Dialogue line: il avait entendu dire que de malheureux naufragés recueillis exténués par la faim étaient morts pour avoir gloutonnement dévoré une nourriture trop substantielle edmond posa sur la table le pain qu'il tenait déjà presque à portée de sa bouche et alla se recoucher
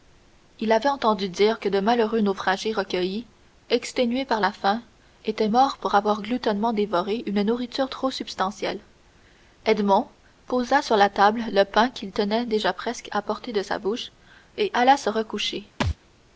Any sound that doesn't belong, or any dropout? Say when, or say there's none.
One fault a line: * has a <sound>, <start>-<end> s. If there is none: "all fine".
* has a thud, 15.8-16.0 s